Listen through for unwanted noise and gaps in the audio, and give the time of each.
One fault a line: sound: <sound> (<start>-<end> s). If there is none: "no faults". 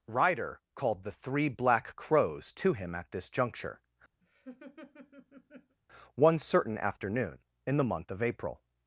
sound: laugh (4.2-5.8 s)